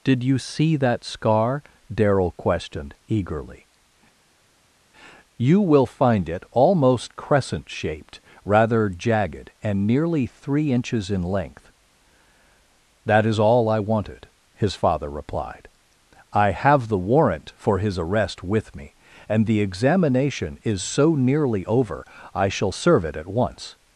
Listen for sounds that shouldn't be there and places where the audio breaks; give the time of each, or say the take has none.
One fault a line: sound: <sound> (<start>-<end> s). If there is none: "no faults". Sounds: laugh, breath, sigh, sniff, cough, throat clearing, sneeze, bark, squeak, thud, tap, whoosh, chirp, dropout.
no faults